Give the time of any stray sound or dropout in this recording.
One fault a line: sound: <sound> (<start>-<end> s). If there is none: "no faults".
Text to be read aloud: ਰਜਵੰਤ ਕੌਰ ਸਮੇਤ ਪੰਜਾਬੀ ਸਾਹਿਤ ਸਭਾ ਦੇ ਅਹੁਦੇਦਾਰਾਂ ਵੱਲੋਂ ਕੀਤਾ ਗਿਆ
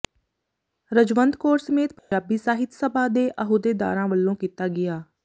sound: dropout (2.0-2.1 s)